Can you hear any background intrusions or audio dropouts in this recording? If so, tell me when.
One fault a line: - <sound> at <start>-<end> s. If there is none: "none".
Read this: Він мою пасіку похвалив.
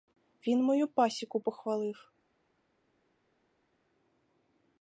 none